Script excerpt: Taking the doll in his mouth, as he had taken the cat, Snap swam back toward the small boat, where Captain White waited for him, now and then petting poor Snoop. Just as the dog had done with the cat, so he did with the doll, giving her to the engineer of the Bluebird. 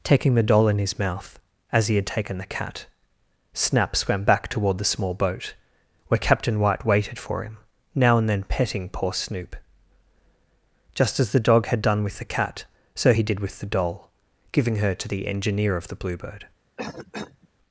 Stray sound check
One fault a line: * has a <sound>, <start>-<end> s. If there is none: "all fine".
* has a cough, 16.8-17.5 s